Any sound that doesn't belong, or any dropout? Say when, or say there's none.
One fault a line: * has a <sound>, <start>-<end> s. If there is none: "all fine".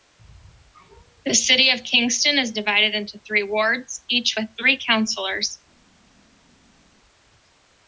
all fine